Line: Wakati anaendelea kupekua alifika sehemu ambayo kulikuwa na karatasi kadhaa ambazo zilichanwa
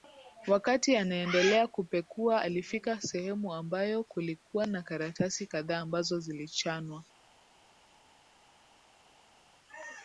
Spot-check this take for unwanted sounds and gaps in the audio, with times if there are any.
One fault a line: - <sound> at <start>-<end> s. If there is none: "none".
none